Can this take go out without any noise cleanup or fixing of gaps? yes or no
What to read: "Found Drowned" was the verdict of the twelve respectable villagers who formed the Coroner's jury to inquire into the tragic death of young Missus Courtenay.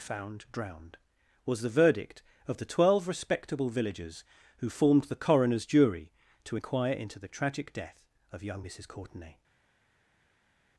yes